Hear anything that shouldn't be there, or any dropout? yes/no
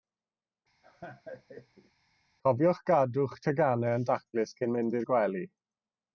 yes